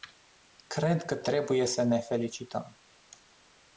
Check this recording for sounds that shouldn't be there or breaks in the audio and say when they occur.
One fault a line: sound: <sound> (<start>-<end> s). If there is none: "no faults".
no faults